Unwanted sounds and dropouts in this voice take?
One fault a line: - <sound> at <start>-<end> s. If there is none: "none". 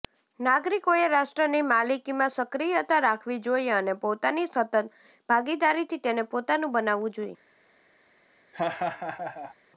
- laugh at 8.5-9.5 s